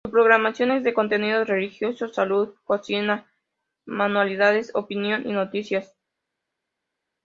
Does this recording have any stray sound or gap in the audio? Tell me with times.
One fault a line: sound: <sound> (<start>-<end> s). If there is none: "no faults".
no faults